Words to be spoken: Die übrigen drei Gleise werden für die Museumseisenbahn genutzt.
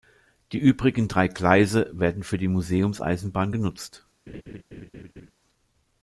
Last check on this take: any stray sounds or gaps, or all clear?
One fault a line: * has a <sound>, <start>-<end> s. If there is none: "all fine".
* has a laugh, 4.3-5.3 s